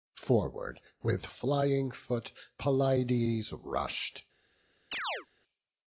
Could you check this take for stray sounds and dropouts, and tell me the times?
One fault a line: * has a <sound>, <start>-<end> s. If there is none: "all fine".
* has a chirp, 4.9-5.3 s